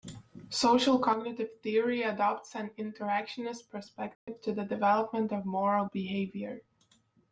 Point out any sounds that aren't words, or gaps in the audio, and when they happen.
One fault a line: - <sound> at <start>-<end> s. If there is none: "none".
- dropout at 4.1-4.3 s